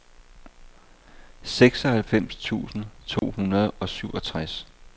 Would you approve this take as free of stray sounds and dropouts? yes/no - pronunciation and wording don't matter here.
no